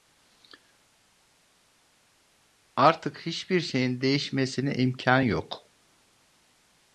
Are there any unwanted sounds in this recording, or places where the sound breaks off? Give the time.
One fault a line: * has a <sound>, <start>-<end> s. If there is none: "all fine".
all fine